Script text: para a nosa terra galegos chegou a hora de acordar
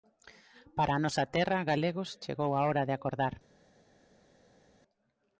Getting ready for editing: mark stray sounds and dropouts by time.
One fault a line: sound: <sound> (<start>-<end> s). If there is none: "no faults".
no faults